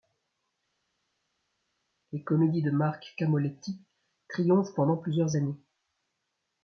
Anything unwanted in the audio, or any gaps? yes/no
no